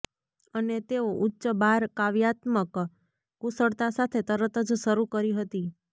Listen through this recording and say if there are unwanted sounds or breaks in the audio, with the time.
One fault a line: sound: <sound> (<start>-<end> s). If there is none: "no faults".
no faults